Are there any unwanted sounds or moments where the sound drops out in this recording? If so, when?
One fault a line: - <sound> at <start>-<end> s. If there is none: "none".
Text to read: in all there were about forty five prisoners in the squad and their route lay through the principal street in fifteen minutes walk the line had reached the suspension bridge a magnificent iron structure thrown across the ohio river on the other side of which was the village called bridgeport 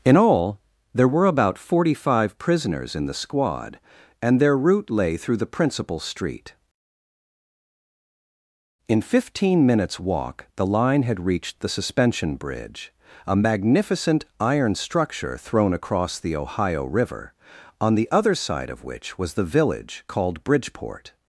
none